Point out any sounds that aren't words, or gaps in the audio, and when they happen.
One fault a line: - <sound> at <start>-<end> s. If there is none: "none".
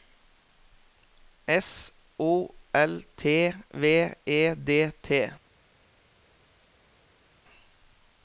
none